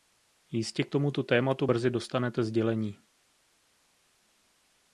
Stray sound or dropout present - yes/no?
no